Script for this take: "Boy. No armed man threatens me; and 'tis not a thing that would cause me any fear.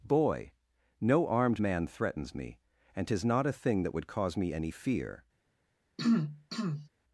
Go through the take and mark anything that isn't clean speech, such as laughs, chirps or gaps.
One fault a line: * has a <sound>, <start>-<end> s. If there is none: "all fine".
* has a throat clearing, 6.0-6.9 s